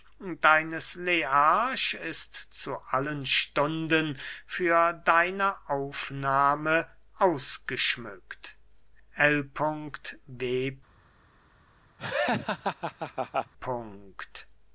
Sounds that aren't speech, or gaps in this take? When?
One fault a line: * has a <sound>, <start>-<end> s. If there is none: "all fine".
* has a laugh, 12.0-13.5 s